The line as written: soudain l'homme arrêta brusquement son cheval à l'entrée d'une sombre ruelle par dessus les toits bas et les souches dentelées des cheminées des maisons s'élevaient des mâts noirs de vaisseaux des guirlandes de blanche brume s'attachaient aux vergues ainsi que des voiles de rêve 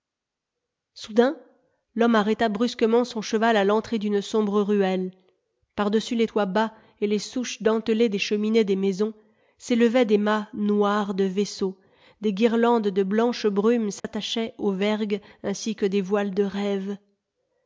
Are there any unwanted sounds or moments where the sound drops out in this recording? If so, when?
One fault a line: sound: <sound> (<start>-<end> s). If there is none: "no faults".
sound: dropout (14.0-14.0 s)